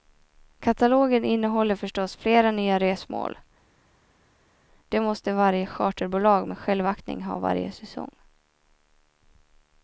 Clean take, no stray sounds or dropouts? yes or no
yes